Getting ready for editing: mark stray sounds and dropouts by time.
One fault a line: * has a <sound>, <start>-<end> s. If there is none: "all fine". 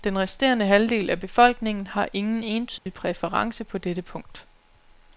* has a dropout, 2.8-2.9 s